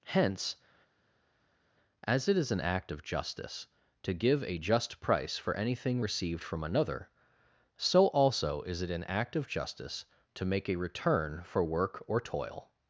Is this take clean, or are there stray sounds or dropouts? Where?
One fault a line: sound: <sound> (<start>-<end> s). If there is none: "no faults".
no faults